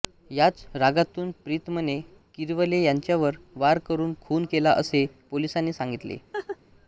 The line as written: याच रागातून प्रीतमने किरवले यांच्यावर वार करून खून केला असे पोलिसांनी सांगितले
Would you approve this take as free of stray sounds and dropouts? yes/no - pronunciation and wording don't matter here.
no